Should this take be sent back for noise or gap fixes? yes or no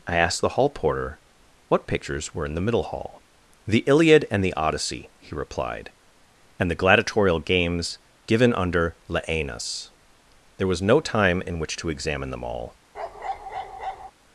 yes